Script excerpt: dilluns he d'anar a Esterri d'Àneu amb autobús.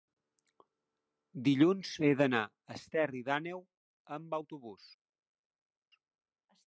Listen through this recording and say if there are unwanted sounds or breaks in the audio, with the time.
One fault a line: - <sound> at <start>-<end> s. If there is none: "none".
none